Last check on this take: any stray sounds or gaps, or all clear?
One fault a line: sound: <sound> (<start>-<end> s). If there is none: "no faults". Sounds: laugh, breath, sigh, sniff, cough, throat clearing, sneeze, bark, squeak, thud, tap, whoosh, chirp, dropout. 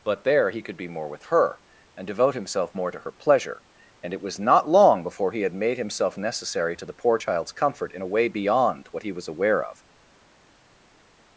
no faults